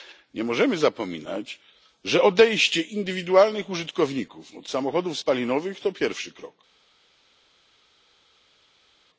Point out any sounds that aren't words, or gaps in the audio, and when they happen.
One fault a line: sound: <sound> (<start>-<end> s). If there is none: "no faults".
no faults